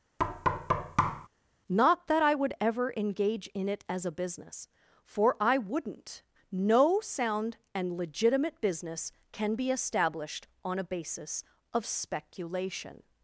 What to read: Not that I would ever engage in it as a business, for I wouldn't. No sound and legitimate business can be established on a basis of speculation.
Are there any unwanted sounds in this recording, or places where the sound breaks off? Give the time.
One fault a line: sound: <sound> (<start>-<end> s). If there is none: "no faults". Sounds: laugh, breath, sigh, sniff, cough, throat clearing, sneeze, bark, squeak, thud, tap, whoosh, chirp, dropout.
sound: thud (0.2-1.3 s)